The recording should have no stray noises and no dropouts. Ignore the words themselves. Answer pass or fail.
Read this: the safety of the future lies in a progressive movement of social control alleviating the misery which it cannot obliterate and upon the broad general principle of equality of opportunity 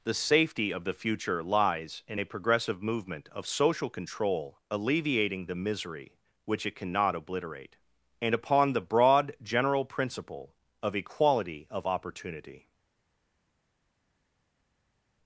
pass